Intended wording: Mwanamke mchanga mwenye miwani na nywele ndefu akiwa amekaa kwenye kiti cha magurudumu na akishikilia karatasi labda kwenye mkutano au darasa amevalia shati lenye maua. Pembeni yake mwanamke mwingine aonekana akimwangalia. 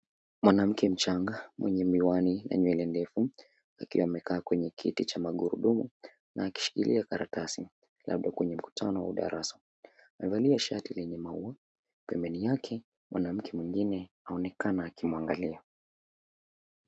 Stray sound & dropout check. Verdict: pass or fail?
pass